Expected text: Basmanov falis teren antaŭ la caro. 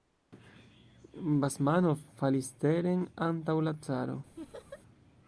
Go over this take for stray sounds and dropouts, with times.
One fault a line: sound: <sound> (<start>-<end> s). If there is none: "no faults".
sound: laugh (4.4-4.8 s)